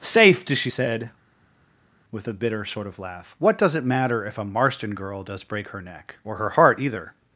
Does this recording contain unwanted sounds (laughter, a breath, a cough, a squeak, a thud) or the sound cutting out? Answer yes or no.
no